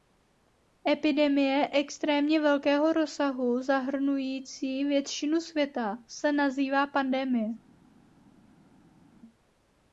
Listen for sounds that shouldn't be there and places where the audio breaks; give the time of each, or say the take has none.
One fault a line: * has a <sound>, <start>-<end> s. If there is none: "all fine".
all fine